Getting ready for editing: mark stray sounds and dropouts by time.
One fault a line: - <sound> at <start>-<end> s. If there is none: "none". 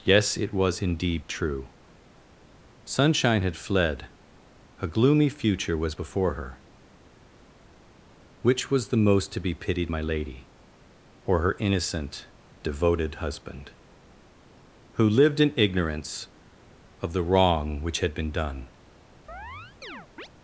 - chirp at 19.3-20.3 s